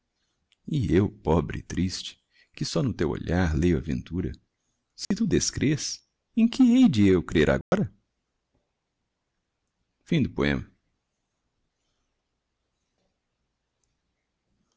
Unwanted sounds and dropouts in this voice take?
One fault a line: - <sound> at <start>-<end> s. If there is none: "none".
- dropout at 5.0-5.1 s
- dropout at 7.6-7.7 s